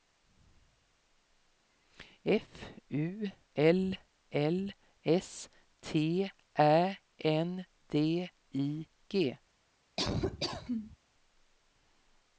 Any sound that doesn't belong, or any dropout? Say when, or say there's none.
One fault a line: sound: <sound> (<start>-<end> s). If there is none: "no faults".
sound: laugh (10.0-11.0 s)